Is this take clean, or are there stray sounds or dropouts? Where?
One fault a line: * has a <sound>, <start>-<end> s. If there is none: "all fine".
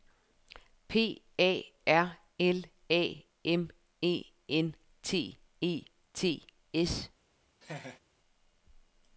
* has a laugh, 7.6-8.0 s